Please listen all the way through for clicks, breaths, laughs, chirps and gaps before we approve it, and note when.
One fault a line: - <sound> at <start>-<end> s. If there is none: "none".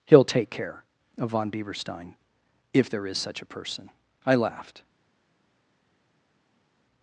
none